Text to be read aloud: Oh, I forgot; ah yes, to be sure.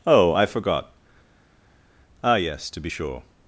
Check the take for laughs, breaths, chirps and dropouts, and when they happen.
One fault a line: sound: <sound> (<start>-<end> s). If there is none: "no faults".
no faults